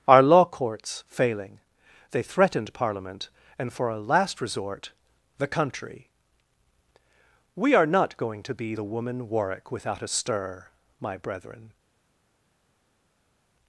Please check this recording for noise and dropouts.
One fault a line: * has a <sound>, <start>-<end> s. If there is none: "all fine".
all fine